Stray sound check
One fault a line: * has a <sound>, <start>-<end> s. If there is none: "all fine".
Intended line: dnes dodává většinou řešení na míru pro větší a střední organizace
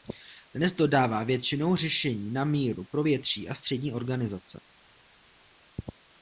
all fine